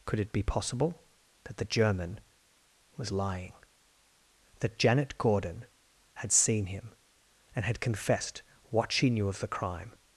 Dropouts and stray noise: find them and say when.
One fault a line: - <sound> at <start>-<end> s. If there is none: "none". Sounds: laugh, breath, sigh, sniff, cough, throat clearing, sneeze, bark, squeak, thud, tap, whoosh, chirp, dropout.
none